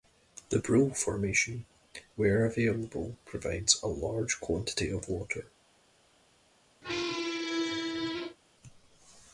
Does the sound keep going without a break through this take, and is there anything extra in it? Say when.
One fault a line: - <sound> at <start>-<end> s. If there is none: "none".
- squeak at 6.8-8.4 s